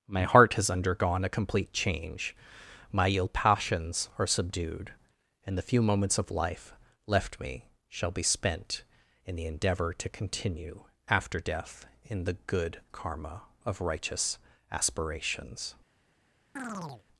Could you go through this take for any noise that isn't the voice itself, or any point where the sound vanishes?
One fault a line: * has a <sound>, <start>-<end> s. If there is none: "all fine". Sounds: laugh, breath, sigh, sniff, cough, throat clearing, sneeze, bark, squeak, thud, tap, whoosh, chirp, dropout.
* has a chirp, 16.6-17.0 s